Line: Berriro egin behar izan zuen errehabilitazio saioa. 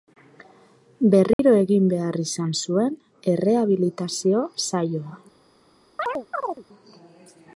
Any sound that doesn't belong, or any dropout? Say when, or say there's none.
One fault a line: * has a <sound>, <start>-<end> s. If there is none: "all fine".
* has a dropout, 1.3-1.4 s
* has a chirp, 6.0-6.6 s